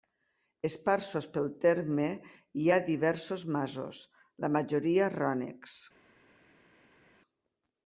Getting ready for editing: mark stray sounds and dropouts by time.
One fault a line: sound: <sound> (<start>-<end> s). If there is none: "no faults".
no faults